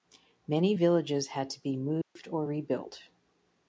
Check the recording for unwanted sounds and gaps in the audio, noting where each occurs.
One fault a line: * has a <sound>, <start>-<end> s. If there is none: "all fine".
* has a dropout, 2.0-2.2 s